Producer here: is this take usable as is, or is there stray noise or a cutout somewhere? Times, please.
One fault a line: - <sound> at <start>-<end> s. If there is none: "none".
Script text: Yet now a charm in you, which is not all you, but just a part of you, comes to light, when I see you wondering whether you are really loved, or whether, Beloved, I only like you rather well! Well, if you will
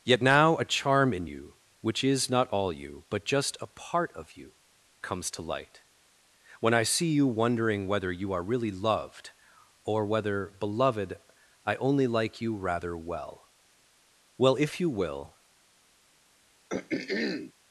- throat clearing at 16.7-17.5 s